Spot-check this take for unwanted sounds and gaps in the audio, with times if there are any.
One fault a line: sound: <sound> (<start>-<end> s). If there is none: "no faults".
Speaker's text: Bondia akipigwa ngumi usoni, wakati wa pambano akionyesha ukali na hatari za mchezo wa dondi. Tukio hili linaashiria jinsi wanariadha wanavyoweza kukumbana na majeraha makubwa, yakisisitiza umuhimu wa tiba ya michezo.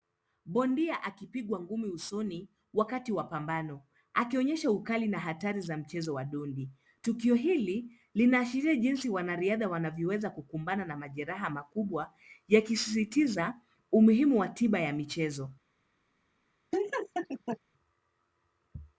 sound: laugh (16.7-17.6 s)